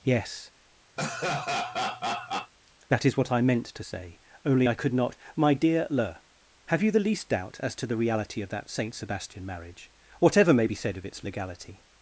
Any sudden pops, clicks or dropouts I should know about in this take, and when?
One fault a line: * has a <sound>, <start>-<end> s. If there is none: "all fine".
* has a laugh, 1.0-2.5 s